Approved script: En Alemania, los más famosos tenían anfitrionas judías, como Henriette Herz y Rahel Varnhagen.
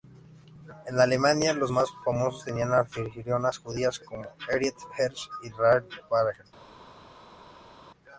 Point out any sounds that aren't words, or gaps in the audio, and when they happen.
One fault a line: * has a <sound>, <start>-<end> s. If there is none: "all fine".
all fine